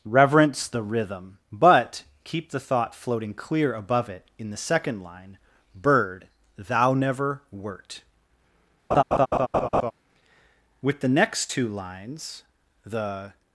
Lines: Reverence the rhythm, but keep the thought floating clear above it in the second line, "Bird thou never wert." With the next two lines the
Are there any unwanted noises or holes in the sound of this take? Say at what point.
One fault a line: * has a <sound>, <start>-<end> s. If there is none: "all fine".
* has a laugh, 8.9-9.9 s